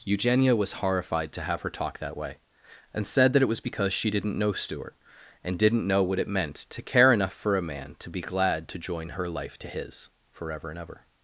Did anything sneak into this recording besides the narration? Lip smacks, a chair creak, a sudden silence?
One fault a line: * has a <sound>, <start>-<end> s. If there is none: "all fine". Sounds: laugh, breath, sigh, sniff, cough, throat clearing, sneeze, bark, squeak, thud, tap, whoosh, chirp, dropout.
all fine